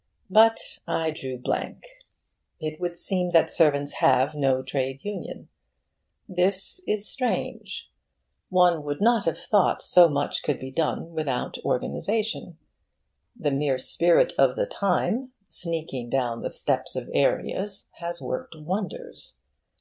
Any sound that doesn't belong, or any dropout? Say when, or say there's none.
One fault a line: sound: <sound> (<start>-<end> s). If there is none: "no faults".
no faults